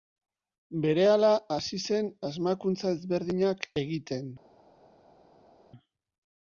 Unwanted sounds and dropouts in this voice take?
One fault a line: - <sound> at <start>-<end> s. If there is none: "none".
none